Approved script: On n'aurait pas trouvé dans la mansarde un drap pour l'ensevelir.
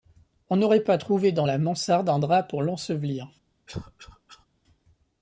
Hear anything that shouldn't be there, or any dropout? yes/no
yes